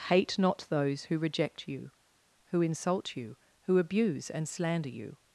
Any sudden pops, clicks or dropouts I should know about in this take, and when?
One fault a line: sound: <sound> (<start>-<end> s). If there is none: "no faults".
no faults